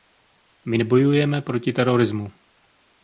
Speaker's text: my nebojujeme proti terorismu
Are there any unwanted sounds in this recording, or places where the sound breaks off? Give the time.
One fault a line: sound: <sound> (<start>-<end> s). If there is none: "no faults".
no faults